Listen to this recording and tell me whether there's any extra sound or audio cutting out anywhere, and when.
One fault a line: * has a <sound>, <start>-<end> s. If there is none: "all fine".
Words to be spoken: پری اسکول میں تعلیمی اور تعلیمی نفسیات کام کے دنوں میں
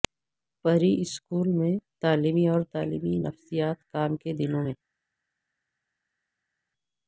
all fine